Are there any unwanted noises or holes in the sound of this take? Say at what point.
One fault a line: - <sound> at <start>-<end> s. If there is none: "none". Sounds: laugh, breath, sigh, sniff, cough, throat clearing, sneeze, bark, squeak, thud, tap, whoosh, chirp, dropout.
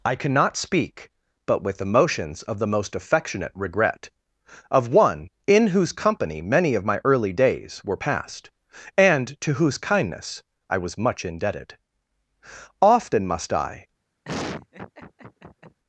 - laugh at 14.2-15.8 s